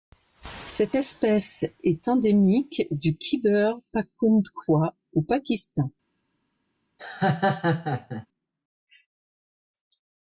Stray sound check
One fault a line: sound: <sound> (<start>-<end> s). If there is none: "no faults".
sound: laugh (7.0-8.3 s)